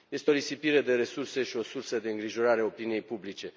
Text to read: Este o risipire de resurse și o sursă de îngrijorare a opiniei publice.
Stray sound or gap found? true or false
false